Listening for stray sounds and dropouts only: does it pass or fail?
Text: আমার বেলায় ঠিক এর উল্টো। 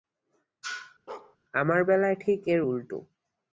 fail